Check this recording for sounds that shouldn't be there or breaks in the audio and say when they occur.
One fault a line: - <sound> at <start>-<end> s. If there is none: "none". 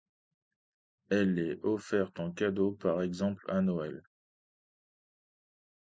none